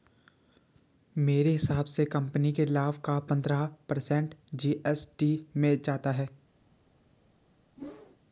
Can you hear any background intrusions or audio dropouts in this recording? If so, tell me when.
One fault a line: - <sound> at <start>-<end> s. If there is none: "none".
- whoosh at 7.8-8.2 s